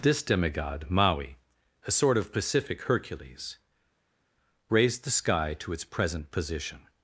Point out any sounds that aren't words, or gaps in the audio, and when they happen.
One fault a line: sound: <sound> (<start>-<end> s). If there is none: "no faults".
no faults